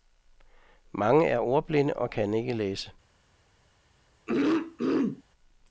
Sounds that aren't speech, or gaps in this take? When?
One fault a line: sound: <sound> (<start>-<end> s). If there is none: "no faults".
sound: throat clearing (4.3-5.2 s)